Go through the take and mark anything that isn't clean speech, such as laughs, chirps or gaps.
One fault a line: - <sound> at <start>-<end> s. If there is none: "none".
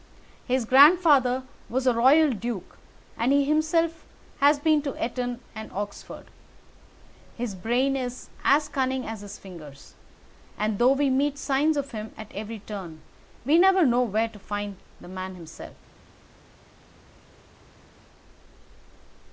none